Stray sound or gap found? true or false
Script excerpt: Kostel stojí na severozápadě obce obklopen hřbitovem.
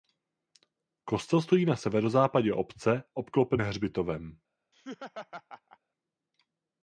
true